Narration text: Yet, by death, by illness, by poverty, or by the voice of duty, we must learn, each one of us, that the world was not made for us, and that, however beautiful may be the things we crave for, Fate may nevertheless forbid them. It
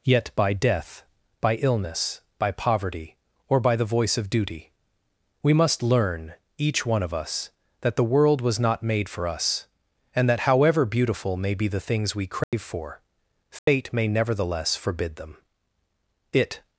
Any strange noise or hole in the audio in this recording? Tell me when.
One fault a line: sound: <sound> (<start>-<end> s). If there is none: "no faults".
sound: dropout (12.4-12.5 s)
sound: dropout (13.6-13.7 s)